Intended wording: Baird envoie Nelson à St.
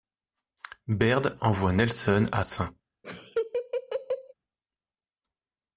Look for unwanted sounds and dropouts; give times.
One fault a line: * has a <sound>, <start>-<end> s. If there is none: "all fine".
* has a laugh, 3.0-4.3 s